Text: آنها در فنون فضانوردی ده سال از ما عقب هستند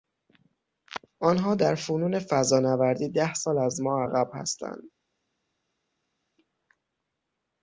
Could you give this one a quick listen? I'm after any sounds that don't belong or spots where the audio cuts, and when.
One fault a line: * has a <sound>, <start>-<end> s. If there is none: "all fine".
all fine